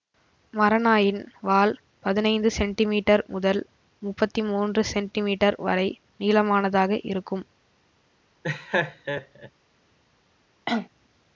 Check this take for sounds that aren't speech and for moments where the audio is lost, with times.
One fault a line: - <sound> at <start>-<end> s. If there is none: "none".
- laugh at 8.4-9.5 s
- cough at 10.7-10.9 s